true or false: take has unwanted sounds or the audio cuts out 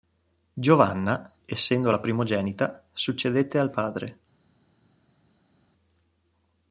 false